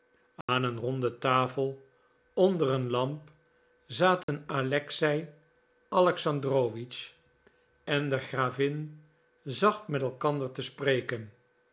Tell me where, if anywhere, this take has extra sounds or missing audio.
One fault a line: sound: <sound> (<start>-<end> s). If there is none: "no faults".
sound: dropout (0.4-0.5 s)
sound: dropout (4.2-4.3 s)